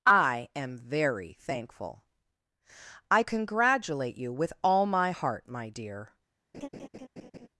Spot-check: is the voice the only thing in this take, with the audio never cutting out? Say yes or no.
no